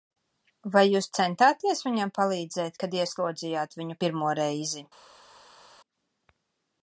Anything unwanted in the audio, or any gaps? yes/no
no